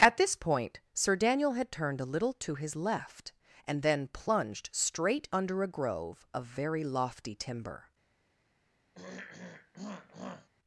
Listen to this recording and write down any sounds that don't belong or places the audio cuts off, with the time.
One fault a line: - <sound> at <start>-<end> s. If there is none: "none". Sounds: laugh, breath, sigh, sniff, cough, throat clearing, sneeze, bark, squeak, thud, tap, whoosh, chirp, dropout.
- throat clearing at 8.9-10.5 s